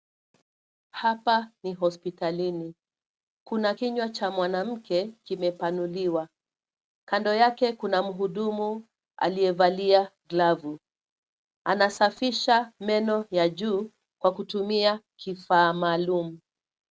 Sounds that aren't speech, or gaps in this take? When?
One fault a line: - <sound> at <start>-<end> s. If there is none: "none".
none